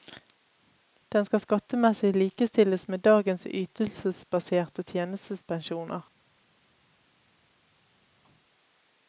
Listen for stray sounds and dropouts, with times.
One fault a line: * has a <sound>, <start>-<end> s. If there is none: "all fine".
all fine